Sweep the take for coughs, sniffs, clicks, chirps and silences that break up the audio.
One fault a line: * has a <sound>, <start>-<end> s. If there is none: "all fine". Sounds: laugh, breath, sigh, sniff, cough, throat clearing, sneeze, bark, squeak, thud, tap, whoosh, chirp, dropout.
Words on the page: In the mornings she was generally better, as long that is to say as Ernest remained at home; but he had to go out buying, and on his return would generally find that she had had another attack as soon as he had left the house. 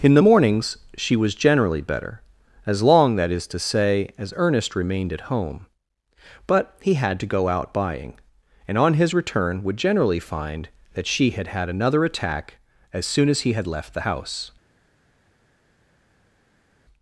all fine